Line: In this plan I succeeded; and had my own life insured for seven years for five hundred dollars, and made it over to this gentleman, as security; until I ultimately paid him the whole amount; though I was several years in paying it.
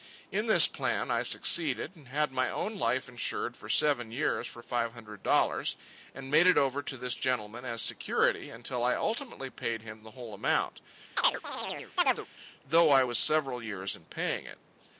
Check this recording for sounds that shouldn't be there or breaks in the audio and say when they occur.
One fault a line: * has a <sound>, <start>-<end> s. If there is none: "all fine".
* has a chirp, 11.2-12.3 s